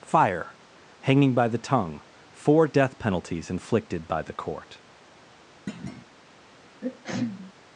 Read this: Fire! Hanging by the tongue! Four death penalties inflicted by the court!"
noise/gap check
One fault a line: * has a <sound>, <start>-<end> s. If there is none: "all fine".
* has a thud, 5.7-6.1 s
* has a sneeze, 6.8-7.5 s